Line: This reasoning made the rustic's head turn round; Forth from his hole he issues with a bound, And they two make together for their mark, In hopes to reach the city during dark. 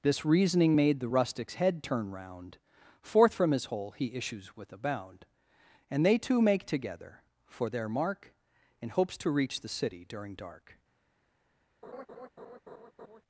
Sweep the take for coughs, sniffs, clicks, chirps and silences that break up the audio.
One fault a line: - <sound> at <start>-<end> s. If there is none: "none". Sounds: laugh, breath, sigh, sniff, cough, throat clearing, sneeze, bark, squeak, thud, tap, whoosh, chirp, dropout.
- laugh at 11.8-13.2 s